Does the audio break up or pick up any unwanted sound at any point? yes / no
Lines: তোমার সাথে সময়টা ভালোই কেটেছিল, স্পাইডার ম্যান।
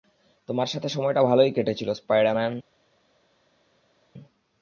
no